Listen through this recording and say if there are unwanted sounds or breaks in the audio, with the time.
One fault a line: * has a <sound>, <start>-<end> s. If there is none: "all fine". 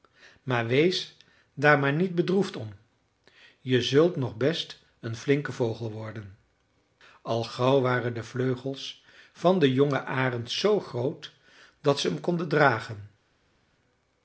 all fine